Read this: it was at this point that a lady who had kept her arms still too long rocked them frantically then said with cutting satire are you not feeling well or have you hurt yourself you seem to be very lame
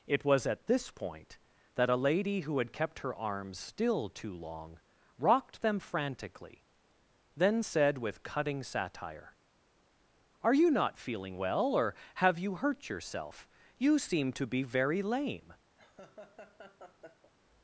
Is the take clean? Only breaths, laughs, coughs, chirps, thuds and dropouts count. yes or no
no